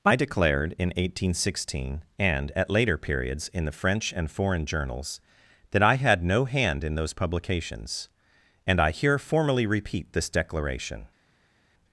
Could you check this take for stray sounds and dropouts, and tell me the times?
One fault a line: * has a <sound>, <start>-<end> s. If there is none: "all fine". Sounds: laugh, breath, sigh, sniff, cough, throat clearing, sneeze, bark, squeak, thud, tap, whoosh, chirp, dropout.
all fine